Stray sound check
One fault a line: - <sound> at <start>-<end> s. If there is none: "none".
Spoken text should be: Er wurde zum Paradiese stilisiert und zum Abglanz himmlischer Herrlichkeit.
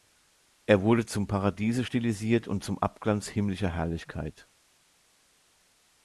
none